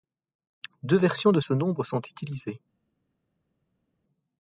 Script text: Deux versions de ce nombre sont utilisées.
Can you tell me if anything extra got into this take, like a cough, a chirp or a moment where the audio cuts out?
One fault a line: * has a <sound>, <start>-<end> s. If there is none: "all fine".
all fine